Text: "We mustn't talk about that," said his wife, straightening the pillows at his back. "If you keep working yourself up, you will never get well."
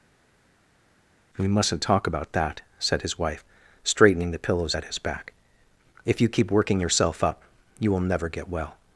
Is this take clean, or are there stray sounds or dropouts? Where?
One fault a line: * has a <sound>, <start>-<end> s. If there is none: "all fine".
all fine